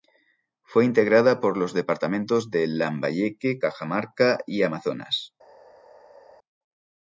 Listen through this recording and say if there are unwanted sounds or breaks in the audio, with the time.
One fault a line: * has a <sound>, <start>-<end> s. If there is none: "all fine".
all fine